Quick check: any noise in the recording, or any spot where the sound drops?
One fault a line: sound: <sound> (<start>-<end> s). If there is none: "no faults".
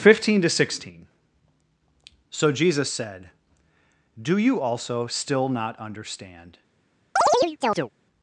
sound: chirp (7.2-7.9 s)